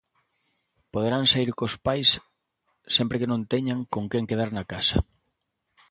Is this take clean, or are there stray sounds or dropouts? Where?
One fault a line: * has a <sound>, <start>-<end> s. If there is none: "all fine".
all fine